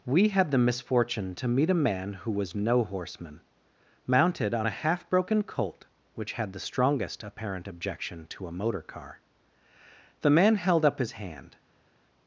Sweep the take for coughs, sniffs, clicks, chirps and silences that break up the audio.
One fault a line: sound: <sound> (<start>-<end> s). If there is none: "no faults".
no faults